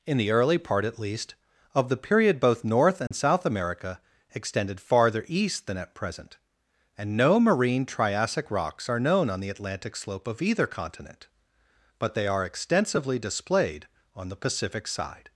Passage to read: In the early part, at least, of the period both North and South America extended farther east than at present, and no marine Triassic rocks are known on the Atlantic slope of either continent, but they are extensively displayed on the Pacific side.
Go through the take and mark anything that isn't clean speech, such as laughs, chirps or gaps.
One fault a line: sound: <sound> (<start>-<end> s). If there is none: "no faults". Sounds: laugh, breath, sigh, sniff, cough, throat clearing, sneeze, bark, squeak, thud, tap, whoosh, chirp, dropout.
sound: dropout (3.1-3.1 s)